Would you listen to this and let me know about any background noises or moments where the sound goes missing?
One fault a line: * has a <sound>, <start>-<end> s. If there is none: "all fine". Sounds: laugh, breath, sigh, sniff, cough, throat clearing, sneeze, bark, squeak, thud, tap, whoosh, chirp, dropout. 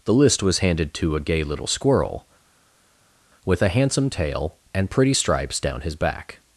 all fine